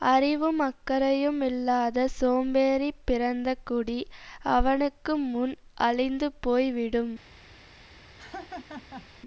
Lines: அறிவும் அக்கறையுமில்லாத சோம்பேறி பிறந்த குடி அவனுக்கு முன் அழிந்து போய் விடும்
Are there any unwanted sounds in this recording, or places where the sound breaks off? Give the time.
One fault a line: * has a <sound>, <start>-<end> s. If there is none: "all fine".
* has a laugh, 8.2-9.1 s